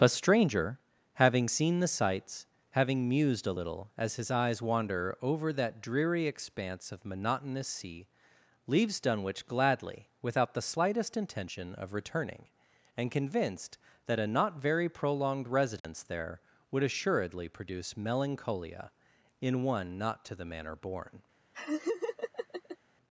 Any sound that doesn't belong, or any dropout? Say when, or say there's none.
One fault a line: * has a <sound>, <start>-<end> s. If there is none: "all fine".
* has a dropout, 15.8-15.8 s
* has a laugh, 21.5-22.8 s